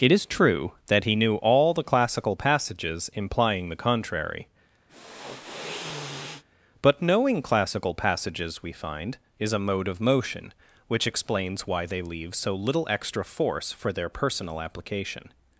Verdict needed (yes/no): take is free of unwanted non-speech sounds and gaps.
no